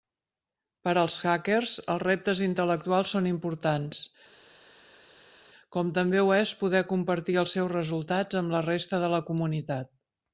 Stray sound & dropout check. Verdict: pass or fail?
pass